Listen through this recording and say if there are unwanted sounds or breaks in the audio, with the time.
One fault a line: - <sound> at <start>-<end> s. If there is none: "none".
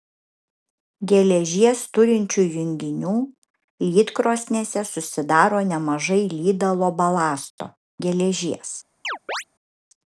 - chirp at 9.0-9.4 s